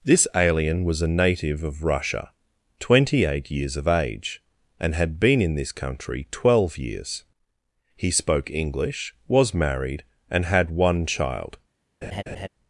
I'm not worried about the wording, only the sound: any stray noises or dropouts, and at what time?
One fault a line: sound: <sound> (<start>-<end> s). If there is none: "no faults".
sound: laugh (12.0-12.5 s)